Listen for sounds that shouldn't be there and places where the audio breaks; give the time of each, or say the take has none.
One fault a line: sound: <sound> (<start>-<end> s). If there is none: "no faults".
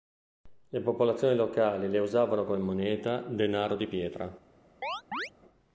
sound: chirp (4.8-5.3 s)